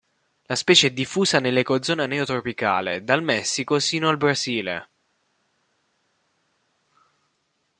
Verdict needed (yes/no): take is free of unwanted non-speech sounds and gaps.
yes